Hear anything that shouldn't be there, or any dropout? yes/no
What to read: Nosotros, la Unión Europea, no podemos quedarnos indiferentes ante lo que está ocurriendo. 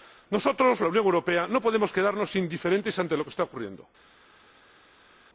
no